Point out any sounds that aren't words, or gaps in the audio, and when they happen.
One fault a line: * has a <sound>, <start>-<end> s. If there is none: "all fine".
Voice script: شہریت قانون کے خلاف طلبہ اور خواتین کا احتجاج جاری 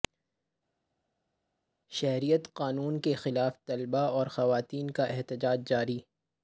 all fine